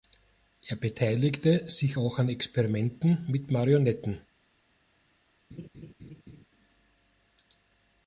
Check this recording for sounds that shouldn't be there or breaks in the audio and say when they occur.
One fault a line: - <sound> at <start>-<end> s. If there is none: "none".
- laugh at 5.5-6.5 s